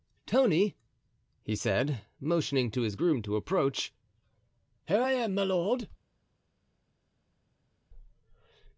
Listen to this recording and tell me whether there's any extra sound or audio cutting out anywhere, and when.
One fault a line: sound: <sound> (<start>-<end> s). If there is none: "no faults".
no faults